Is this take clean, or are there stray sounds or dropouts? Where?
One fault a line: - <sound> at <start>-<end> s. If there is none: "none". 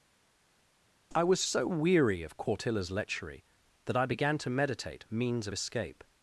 none